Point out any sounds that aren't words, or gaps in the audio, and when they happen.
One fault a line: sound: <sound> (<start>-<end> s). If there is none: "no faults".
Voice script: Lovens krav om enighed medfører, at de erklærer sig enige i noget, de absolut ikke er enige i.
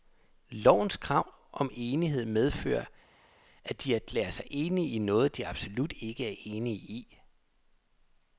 no faults